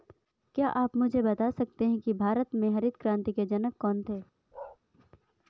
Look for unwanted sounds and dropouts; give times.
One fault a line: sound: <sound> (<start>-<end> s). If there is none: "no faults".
sound: bark (4.5-4.8 s)